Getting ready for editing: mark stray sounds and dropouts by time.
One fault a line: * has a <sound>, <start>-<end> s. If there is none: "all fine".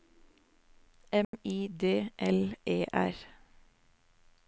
* has a dropout, 1.2-1.3 s